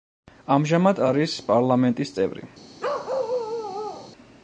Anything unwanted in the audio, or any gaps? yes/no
yes